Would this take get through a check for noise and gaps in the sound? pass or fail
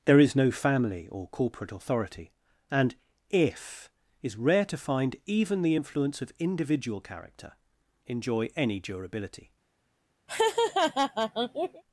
fail